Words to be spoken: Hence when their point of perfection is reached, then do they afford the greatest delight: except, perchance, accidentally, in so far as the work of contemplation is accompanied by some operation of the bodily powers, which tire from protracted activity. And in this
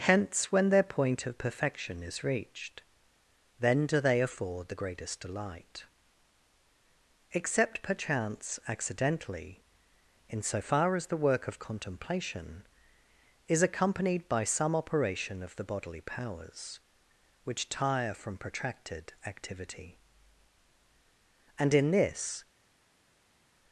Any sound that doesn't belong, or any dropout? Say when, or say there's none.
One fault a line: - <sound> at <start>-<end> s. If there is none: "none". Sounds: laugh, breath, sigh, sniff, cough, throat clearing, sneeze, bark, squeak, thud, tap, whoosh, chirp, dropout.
none